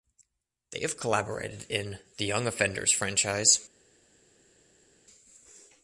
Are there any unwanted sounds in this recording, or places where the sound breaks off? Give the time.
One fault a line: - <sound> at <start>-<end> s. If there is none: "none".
none